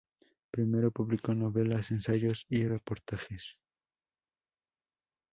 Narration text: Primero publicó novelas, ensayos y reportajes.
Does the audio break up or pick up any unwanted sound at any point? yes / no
no